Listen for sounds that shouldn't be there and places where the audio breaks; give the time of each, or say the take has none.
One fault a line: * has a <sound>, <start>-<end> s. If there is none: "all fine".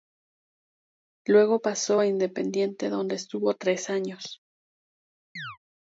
* has a chirp, 5.4-5.6 s